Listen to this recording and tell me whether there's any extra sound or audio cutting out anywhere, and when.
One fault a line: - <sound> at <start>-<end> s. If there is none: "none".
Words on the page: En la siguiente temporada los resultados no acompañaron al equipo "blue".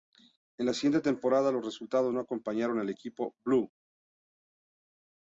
none